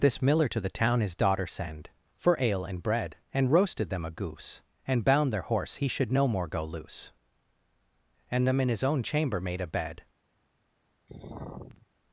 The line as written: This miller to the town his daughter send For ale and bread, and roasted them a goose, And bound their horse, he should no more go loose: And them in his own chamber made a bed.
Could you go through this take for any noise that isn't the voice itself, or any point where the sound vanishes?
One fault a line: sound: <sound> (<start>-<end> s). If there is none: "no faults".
sound: sigh (11.1-11.9 s)